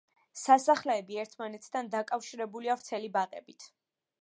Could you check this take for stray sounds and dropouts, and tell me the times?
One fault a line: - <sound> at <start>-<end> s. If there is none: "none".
none